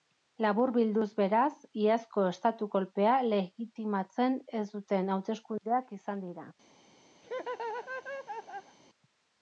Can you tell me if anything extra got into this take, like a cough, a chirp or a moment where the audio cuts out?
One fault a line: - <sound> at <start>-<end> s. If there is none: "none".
- laugh at 7.2-8.8 s